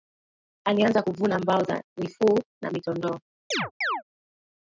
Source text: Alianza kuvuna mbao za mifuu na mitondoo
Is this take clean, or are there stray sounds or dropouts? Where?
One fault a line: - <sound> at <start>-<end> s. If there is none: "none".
- chirp at 3.5-4.0 s